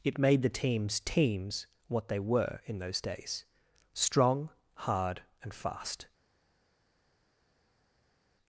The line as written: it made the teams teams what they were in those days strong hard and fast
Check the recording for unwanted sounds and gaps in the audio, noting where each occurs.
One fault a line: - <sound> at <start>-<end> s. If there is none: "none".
none